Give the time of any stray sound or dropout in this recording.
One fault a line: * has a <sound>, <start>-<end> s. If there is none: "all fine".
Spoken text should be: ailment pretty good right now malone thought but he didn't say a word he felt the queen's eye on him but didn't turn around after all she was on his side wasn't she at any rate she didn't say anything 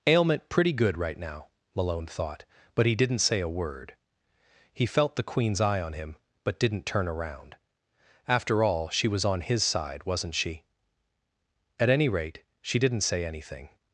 all fine